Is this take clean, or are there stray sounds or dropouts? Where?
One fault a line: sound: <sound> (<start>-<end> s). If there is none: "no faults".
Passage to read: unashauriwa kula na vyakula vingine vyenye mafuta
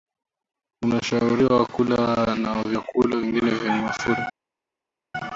no faults